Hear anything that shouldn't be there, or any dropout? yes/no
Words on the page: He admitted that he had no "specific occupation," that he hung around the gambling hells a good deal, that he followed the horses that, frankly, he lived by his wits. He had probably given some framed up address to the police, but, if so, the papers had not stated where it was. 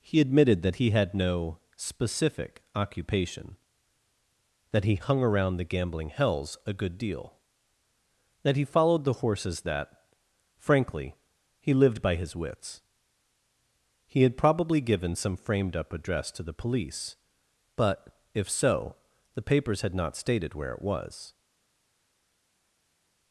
no